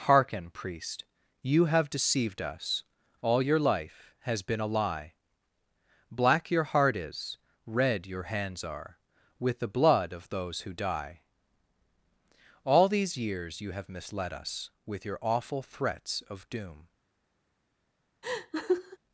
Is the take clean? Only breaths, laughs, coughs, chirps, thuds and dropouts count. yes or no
no